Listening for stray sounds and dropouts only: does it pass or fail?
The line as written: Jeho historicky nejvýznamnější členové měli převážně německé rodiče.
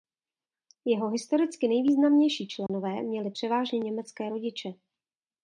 fail